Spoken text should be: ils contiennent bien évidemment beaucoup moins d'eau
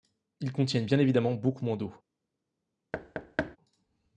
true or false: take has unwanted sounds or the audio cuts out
true